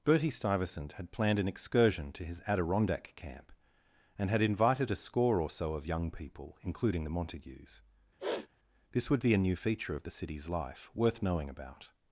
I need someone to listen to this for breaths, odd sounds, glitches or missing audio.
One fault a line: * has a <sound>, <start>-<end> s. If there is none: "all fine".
* has a sniff, 8.2-8.5 s